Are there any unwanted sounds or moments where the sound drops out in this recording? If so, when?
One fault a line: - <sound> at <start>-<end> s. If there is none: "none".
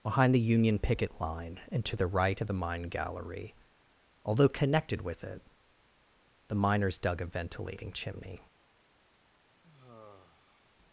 - sigh at 9.6-10.7 s